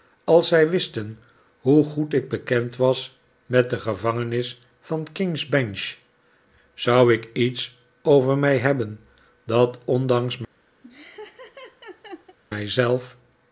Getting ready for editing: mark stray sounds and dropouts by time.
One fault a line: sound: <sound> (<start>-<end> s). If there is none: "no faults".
sound: laugh (10.8-12.4 s)